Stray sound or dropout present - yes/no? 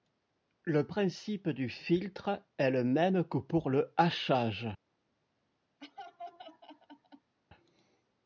yes